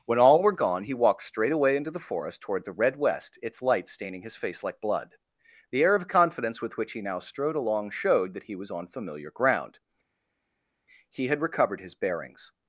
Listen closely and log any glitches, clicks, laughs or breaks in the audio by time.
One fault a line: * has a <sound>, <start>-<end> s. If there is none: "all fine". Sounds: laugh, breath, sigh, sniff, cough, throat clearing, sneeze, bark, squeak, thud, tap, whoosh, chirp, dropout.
all fine